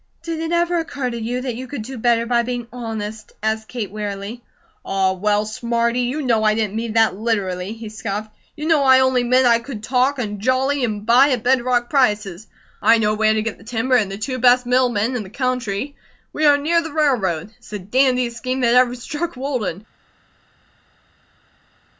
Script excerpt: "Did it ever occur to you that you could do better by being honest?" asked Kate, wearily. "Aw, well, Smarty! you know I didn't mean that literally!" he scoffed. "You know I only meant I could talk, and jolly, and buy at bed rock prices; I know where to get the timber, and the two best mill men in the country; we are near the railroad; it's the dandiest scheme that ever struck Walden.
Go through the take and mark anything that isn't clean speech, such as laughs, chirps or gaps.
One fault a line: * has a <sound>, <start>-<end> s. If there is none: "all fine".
all fine